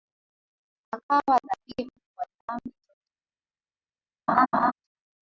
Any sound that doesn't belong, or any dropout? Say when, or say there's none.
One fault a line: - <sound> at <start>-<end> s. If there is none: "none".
- laugh at 4.3-4.7 s